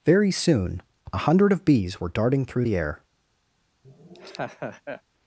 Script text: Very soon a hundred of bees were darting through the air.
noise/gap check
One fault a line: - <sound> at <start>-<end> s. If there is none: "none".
- laugh at 3.8-5.0 s